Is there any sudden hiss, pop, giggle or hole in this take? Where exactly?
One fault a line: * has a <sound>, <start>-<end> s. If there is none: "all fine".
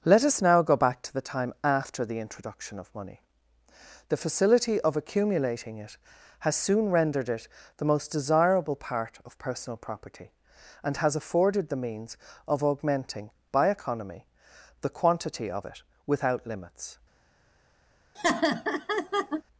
* has a laugh, 18.2-19.4 s